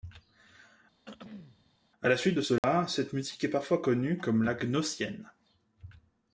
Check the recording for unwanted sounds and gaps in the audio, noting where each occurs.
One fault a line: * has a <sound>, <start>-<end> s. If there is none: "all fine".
* has a throat clearing, 1.1-1.8 s
* has a dropout, 2.6-2.6 s